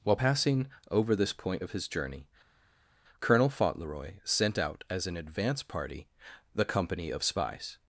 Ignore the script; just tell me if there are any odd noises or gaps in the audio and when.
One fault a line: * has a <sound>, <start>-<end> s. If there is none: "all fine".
all fine